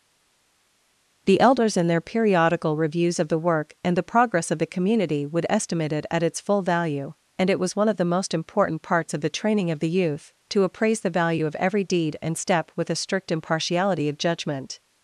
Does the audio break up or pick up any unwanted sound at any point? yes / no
no